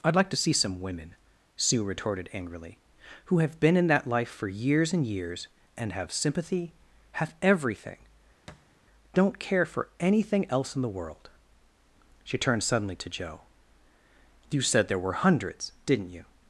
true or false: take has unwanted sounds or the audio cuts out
true